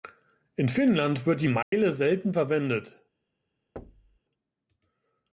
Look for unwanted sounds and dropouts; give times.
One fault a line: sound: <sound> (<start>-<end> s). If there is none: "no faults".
sound: dropout (1.6-1.7 s)
sound: thud (3.8-4.2 s)